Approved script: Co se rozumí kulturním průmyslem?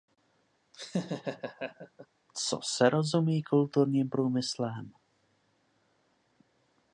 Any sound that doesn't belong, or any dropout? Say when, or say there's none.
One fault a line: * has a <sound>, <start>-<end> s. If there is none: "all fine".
* has a laugh, 0.7-2.1 s